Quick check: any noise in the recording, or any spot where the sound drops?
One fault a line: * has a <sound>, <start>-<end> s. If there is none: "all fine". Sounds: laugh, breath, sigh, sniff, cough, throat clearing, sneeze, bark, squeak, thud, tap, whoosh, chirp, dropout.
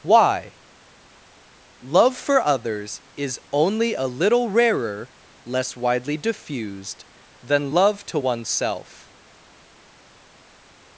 all fine